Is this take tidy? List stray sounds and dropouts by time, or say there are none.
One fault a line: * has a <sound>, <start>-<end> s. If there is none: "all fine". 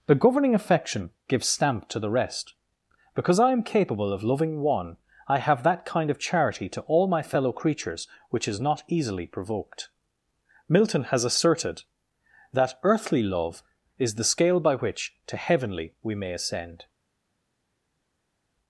all fine